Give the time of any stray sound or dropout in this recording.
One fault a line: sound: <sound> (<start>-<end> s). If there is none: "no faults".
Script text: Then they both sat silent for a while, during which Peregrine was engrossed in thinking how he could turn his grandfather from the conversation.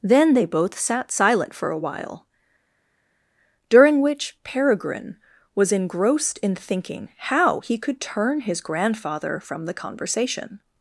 no faults